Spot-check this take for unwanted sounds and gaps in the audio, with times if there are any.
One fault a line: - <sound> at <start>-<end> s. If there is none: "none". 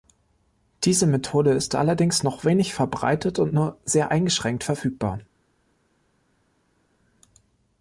none